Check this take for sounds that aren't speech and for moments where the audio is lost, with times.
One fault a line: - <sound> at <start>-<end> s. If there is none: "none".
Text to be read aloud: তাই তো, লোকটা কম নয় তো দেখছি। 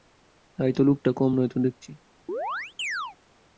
- chirp at 2.3-3.2 s